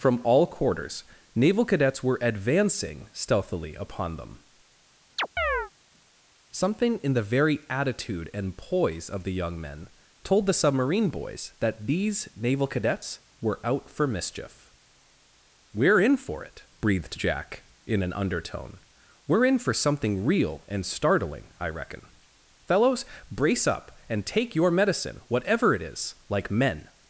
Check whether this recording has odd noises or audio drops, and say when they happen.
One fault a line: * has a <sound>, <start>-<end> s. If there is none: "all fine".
* has a chirp, 5.2-5.7 s